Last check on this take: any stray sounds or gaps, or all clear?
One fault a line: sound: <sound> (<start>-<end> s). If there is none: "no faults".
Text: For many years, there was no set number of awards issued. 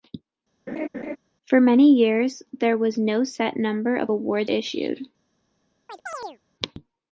sound: laugh (0.7-1.2 s)
sound: chirp (5.9-6.4 s)